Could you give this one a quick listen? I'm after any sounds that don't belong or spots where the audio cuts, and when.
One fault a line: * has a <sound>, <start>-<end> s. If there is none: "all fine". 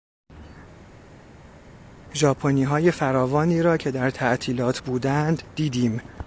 all fine